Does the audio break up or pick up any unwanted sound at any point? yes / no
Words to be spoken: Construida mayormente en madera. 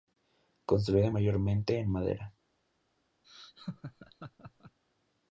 yes